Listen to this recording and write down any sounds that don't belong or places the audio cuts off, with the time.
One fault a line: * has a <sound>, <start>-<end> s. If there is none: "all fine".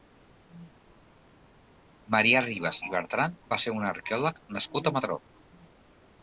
all fine